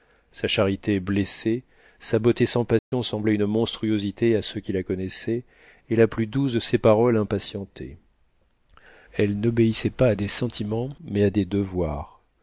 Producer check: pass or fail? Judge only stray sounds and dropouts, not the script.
fail